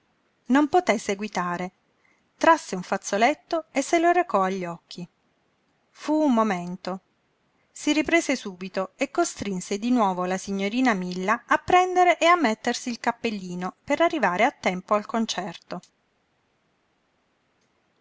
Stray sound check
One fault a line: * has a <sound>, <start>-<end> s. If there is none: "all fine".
all fine